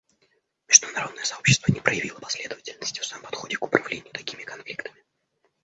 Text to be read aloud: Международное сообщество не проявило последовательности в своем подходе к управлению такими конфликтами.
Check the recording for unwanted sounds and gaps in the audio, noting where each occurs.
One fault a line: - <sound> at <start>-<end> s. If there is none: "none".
none